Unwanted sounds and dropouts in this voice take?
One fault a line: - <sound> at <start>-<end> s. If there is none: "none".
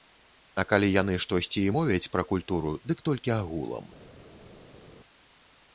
none